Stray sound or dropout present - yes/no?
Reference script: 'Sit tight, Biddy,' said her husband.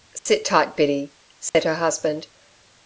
yes